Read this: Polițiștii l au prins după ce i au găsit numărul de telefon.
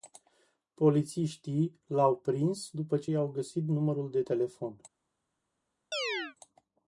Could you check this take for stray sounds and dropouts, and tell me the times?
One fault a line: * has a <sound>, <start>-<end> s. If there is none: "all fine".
* has a chirp, 5.9-6.4 s